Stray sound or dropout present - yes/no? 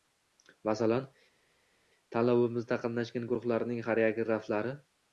no